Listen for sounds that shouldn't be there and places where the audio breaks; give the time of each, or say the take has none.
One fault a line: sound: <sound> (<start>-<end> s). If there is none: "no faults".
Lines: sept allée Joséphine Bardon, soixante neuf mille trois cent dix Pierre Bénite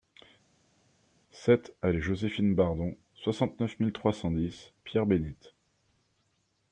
no faults